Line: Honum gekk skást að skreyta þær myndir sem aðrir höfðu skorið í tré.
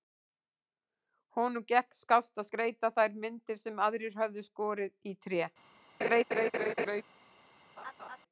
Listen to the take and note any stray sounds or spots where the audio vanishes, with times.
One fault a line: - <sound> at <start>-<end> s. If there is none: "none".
- laugh at 6.0-7.0 s
- laugh at 7.8-8.2 s